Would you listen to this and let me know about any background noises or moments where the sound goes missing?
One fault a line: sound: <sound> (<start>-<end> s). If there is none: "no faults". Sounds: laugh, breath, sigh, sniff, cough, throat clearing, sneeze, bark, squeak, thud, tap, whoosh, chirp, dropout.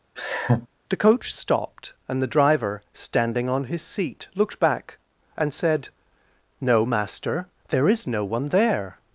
sound: laugh (0.2-0.7 s)